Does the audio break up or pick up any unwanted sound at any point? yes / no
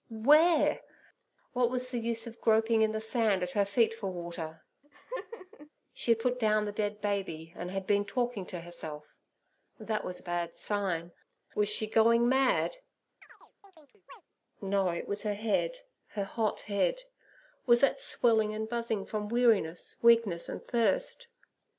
yes